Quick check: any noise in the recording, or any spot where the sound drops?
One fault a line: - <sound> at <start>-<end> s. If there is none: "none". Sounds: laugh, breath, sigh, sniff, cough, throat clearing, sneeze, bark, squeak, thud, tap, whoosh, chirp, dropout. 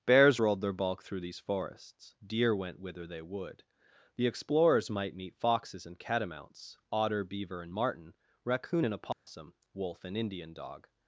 - dropout at 9.1-9.3 s